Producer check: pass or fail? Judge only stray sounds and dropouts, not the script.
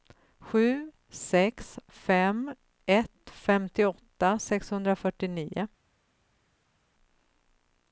pass